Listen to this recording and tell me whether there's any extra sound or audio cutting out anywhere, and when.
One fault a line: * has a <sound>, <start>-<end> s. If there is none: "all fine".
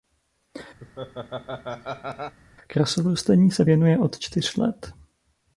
* has a laugh, 0.8-2.4 s